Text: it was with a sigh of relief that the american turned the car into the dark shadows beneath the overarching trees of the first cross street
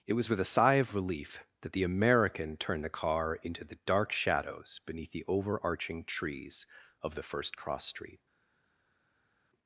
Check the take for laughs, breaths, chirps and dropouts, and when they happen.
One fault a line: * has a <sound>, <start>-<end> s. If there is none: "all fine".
all fine